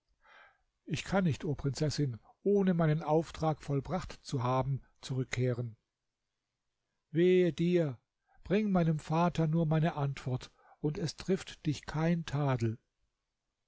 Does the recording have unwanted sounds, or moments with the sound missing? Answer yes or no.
no